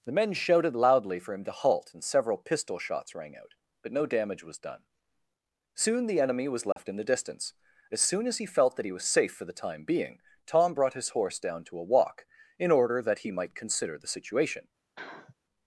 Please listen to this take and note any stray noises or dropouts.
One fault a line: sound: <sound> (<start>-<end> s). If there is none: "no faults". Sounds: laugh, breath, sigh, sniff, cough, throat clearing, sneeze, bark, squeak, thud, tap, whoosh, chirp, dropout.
sound: dropout (6.7-6.8 s)
sound: sniff (15.0-15.3 s)